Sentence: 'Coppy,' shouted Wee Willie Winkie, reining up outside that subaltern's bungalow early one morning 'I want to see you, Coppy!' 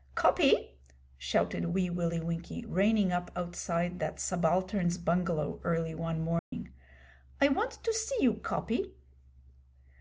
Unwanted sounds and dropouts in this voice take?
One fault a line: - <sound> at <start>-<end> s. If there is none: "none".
- dropout at 6.4-6.5 s